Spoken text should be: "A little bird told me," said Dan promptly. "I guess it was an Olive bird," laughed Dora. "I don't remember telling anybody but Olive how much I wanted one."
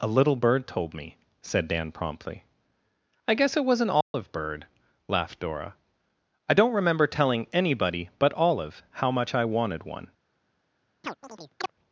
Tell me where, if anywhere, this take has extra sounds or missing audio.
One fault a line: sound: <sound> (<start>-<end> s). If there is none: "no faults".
sound: dropout (4.0-4.1 s)
sound: chirp (11.0-11.7 s)